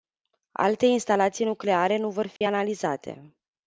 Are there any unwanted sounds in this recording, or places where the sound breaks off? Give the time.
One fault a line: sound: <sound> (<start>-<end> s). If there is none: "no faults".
sound: dropout (2.4-2.4 s)